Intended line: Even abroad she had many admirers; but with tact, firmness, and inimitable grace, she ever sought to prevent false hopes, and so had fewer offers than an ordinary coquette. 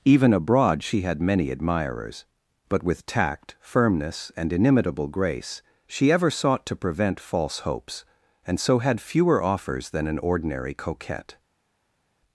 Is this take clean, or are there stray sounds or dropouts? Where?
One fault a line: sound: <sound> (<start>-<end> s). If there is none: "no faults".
no faults